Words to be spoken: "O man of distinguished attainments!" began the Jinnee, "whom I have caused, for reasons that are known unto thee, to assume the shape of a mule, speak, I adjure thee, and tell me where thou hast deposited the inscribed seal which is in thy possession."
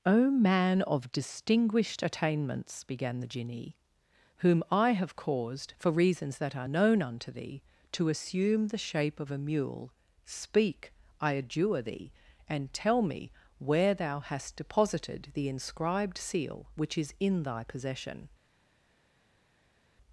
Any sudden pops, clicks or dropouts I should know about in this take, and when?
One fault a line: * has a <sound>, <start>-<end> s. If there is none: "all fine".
all fine